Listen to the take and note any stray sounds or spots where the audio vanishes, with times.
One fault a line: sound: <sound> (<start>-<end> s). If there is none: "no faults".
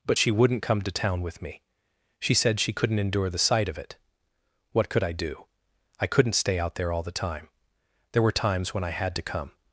no faults